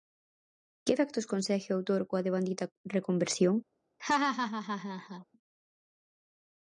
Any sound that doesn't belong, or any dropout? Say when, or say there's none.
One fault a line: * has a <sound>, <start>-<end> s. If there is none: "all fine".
* has a laugh, 4.0-5.2 s